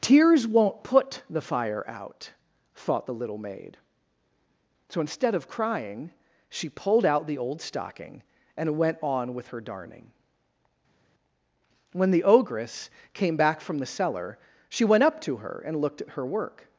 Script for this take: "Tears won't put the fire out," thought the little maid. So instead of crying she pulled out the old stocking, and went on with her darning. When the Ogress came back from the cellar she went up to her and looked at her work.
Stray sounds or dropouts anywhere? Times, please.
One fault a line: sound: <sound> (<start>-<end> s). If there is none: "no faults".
no faults